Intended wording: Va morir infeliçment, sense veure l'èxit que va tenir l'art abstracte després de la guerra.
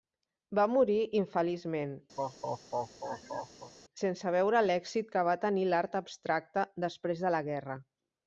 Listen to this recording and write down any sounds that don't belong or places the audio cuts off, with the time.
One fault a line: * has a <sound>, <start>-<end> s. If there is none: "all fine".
* has a laugh, 2.2-3.7 s